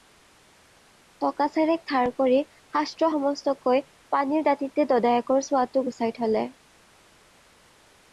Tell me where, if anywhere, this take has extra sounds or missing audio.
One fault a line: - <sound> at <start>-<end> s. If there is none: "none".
none